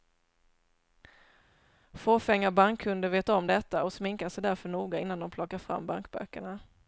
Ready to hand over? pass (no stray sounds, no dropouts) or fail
pass